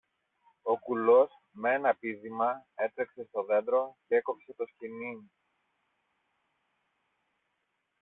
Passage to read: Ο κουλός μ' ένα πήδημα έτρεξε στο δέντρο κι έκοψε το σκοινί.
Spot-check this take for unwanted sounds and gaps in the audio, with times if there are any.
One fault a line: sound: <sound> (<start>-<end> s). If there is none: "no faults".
no faults